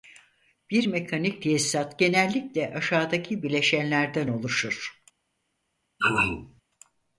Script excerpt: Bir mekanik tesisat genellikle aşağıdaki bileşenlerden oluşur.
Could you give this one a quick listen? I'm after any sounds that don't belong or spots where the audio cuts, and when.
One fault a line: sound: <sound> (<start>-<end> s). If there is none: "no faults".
sound: throat clearing (6.0-6.6 s)